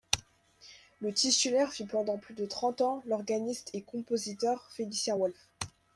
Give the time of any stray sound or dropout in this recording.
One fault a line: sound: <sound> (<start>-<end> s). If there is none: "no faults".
no faults